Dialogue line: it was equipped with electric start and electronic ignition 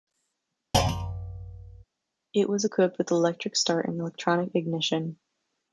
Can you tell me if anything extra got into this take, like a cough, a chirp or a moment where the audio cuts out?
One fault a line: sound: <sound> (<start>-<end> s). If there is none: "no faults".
sound: thud (0.7-1.8 s)